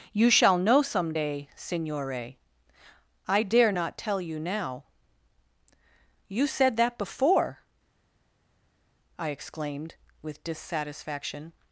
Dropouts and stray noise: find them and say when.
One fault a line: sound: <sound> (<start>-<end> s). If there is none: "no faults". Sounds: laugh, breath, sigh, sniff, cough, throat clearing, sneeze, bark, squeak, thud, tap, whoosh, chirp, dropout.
no faults